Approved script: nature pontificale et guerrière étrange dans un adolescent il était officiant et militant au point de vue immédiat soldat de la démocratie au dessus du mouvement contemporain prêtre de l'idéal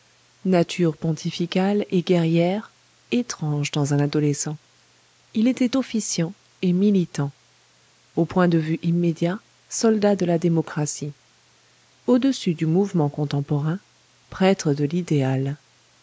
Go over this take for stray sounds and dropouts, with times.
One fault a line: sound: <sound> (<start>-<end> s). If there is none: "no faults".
no faults